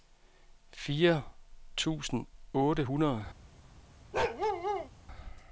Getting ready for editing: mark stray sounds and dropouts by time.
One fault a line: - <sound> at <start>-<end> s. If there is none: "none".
- bark at 4.1-4.9 s